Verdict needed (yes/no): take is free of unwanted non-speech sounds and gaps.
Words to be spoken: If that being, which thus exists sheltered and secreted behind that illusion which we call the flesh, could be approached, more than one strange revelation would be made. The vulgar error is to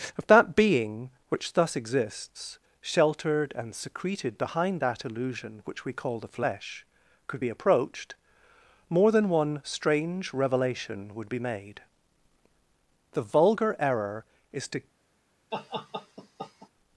no